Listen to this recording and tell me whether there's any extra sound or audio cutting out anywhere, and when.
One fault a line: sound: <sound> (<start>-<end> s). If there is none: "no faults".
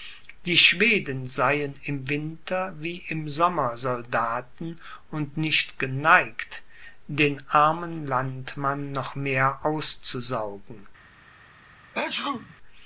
sound: sneeze (11.9-12.6 s)